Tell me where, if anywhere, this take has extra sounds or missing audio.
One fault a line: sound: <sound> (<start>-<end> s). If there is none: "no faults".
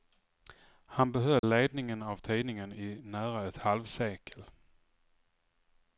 sound: dropout (1.4-1.4 s)